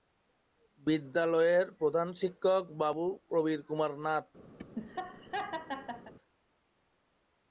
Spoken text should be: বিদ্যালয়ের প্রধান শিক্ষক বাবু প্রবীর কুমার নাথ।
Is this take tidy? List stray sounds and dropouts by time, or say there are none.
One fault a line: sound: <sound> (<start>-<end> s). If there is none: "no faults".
sound: laugh (4.6-6.1 s)